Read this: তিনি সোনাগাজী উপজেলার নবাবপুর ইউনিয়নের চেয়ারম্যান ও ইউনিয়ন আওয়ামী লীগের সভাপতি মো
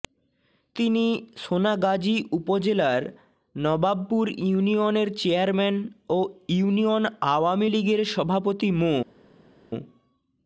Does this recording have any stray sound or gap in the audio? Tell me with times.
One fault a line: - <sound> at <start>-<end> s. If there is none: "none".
none